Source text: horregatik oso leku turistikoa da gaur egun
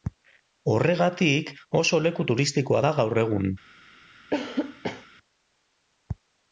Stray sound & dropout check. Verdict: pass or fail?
fail